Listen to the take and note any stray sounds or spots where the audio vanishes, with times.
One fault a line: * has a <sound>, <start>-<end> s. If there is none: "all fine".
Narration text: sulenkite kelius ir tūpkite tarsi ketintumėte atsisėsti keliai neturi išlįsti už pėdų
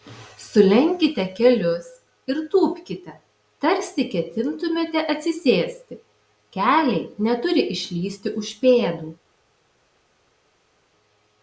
all fine